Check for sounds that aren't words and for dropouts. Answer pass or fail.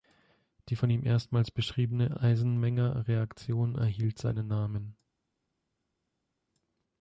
pass